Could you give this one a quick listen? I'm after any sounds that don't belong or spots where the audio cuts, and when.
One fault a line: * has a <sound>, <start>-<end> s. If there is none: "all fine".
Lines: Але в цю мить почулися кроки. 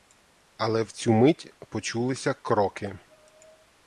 all fine